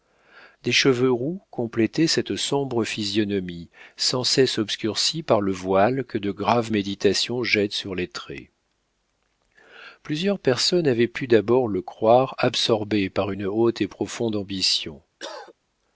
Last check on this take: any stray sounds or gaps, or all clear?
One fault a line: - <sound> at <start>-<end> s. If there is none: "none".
- cough at 15.2-15.5 s